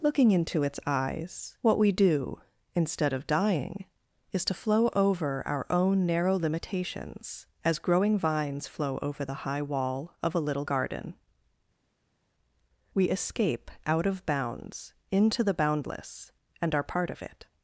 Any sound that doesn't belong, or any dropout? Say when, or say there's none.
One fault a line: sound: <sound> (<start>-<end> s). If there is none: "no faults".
no faults